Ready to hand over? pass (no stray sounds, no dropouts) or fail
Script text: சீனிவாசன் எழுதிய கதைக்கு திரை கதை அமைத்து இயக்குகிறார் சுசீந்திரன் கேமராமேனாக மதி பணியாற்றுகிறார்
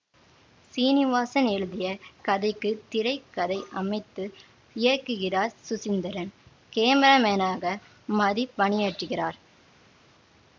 pass